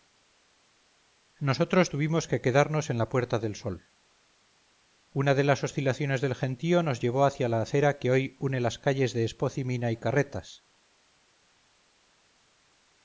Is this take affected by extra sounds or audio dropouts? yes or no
no